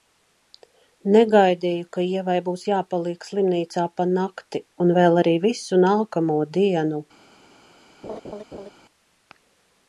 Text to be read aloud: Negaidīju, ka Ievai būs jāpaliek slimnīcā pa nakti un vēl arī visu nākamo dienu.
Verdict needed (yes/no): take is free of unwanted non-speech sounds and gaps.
no